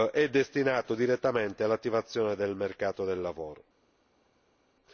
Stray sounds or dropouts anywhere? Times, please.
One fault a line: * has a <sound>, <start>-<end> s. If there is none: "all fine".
all fine